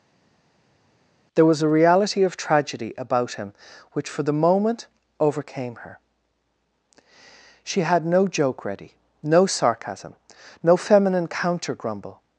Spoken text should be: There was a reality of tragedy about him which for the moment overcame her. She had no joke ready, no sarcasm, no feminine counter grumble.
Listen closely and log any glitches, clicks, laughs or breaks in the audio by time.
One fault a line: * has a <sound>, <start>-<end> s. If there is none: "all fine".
all fine